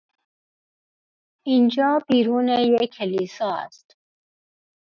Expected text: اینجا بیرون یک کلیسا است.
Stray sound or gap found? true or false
false